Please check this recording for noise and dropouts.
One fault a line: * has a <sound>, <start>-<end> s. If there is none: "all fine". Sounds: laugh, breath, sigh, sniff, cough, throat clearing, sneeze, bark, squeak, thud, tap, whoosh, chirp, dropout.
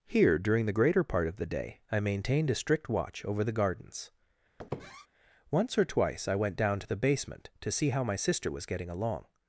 * has a squeak, 4.6-5.1 s